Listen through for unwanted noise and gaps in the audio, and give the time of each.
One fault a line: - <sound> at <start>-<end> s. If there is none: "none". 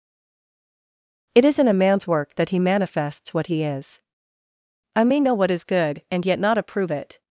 none